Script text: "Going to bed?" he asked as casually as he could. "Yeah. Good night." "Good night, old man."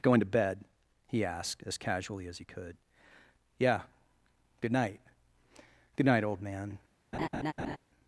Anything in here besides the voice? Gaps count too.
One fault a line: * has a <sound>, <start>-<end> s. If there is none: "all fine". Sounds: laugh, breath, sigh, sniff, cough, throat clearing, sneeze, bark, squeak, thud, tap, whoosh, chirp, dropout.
* has a laugh, 7.1-7.8 s